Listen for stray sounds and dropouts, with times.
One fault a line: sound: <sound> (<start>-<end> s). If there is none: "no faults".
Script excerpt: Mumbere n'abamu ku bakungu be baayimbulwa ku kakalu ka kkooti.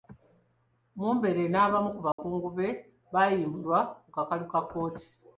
sound: dropout (2.1-2.2 s)